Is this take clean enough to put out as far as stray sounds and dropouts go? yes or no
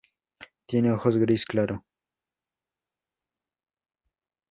yes